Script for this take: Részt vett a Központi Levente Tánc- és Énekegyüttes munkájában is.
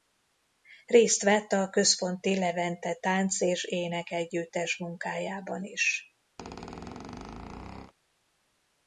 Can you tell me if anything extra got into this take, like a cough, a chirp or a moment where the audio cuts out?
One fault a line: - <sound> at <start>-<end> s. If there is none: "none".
- squeak at 6.4-7.9 s